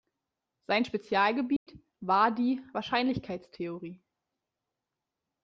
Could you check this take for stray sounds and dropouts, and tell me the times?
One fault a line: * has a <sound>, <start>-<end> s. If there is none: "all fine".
* has a dropout, 1.6-1.7 s